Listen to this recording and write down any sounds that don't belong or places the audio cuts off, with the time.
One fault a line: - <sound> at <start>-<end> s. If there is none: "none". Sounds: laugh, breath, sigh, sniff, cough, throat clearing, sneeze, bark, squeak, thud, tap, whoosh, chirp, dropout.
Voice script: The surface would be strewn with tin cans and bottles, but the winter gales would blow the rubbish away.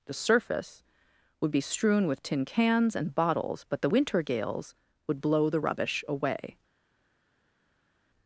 none